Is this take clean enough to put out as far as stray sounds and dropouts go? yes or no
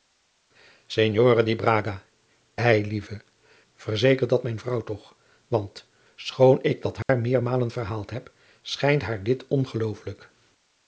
no